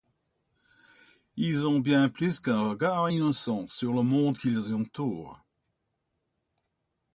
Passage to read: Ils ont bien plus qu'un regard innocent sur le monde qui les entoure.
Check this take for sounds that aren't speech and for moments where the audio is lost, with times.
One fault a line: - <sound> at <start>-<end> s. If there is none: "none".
none